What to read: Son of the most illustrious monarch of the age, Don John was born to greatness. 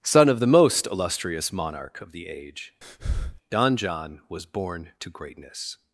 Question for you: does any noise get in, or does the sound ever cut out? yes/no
yes